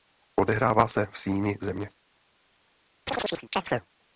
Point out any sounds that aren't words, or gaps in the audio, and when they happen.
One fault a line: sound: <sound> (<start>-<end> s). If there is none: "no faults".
sound: chirp (3.1-3.9 s)